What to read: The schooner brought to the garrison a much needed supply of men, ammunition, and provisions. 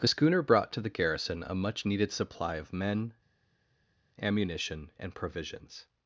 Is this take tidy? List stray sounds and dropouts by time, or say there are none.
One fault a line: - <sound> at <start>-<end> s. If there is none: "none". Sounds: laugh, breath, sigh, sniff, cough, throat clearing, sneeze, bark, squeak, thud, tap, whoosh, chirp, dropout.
none